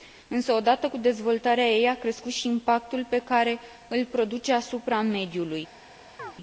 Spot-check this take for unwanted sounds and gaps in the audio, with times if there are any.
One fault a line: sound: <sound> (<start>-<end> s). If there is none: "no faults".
sound: chirp (6.2-6.3 s)